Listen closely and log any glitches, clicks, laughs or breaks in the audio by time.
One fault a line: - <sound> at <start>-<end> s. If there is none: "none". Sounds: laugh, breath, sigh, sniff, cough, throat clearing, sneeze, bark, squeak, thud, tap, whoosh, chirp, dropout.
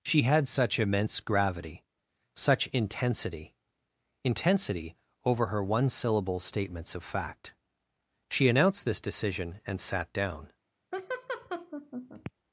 - laugh at 10.9-12.3 s